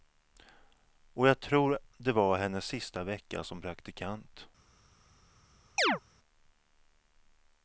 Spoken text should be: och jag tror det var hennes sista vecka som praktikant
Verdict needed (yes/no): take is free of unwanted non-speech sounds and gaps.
no